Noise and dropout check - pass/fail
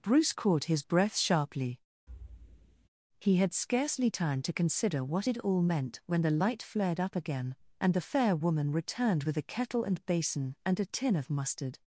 fail